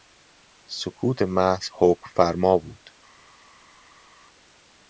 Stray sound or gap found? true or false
false